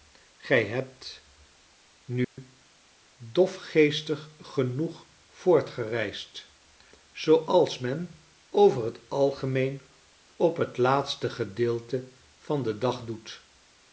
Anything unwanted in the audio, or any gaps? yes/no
yes